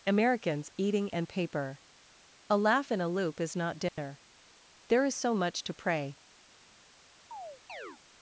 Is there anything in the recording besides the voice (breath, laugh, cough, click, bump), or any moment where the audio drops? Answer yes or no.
yes